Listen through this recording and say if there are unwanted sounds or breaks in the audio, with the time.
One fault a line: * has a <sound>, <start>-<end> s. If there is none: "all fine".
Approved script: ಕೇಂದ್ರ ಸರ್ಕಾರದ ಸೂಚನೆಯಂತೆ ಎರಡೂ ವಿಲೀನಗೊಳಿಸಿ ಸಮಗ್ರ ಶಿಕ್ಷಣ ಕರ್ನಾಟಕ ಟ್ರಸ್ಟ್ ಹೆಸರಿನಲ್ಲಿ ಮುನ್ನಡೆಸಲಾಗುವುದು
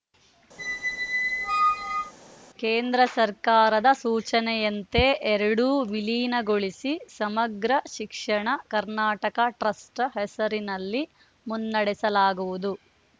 * has a squeak, 0.6-2.1 s